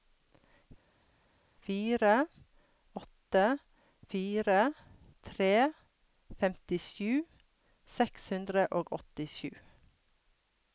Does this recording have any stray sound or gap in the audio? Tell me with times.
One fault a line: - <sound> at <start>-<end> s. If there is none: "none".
none